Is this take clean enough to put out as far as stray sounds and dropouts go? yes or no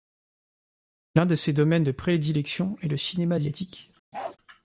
no